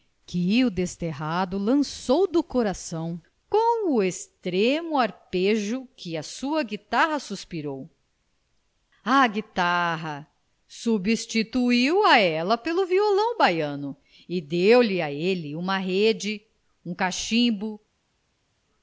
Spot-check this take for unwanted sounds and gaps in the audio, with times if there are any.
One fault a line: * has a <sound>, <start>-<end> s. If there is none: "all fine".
all fine